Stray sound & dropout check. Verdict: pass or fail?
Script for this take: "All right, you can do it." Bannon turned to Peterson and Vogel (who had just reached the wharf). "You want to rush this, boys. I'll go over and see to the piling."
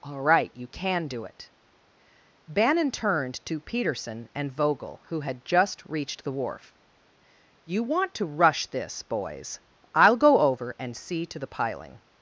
pass